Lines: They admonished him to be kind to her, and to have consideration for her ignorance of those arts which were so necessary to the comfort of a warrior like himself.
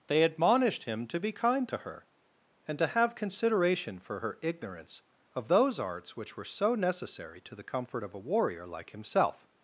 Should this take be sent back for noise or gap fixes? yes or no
no